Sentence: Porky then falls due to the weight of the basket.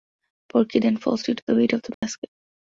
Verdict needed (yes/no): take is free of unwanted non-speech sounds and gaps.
no